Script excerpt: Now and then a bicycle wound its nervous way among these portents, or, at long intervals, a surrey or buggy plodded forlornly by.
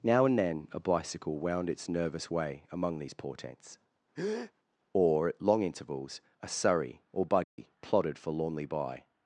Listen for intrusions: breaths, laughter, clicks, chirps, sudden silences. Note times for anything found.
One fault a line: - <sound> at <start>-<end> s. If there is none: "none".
- breath at 4.1-4.5 s
- dropout at 7.4-7.6 s